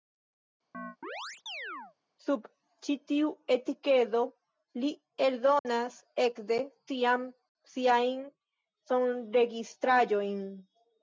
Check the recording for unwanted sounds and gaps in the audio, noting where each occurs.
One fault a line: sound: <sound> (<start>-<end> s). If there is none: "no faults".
sound: chirp (0.7-2.0 s)
sound: dropout (5.6-5.7 s)